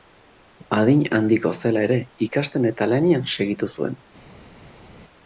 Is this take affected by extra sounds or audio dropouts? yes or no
no